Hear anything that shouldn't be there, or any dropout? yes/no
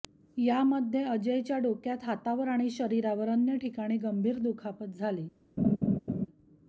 yes